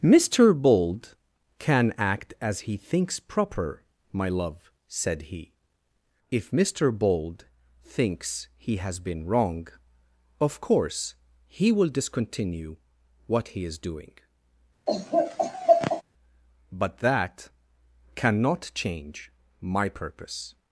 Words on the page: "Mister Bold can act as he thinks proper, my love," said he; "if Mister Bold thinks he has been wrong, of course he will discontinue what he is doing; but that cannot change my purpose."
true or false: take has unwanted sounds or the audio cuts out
true